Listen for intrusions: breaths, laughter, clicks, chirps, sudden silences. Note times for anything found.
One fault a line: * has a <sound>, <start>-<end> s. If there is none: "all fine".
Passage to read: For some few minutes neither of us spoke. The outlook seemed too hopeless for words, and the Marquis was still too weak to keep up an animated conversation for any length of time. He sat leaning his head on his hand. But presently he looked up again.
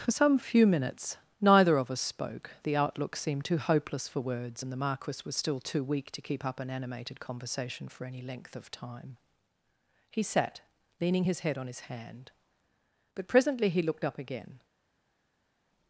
all fine